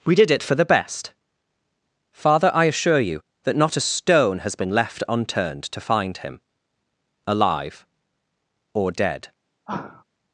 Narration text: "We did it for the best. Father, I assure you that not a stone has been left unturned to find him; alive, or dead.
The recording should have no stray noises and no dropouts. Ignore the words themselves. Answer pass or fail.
fail